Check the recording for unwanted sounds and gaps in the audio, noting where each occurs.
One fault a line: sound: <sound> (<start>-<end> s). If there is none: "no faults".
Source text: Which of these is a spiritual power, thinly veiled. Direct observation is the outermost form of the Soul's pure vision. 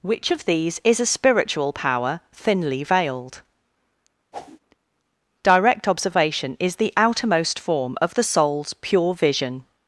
sound: whoosh (4.3-4.6 s)